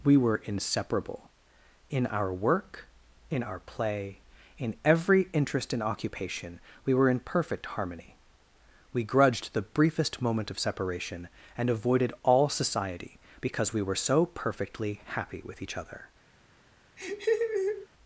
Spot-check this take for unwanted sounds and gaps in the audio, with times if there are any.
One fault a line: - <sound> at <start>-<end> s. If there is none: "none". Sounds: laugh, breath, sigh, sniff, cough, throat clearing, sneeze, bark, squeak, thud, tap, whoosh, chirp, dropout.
- laugh at 17.0-17.9 s